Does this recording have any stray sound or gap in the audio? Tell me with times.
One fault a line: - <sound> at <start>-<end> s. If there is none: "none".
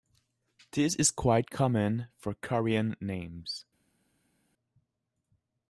none